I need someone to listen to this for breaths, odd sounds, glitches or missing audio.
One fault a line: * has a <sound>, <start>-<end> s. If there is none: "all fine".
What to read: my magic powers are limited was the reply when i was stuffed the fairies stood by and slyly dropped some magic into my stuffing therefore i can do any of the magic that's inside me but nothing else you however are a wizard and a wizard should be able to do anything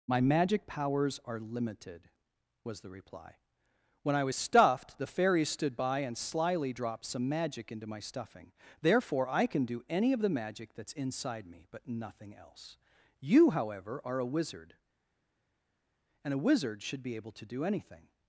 all fine